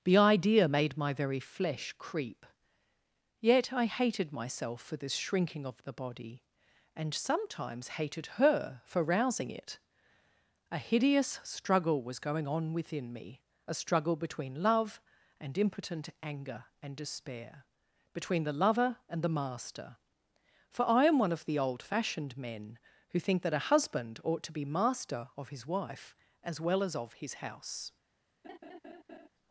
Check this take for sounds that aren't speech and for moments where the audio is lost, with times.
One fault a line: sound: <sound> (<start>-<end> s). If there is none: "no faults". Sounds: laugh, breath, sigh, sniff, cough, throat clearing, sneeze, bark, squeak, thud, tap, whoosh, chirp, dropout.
sound: laugh (28.4-29.3 s)